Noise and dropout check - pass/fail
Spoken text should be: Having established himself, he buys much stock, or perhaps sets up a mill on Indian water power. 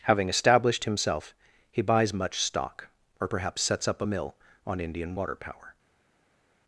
pass